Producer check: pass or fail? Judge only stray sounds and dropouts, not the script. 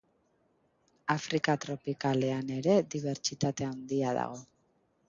pass